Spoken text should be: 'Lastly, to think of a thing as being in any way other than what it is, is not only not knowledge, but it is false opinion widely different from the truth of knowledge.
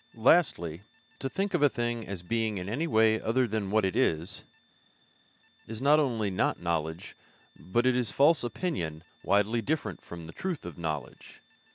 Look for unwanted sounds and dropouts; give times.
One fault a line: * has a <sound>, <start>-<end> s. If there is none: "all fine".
all fine